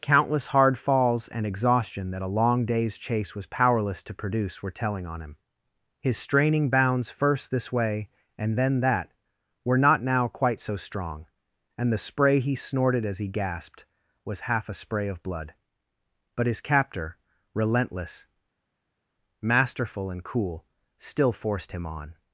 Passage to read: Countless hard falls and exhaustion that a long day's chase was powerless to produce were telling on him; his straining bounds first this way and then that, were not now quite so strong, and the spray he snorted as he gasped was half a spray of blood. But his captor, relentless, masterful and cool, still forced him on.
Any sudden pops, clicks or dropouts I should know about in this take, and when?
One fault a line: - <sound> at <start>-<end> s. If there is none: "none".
none